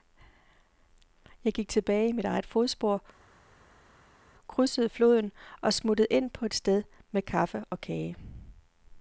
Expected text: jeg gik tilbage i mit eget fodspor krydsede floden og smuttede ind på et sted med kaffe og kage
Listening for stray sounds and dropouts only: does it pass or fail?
pass